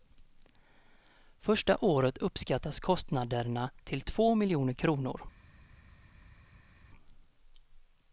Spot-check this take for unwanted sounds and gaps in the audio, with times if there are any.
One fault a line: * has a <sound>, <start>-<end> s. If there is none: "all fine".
all fine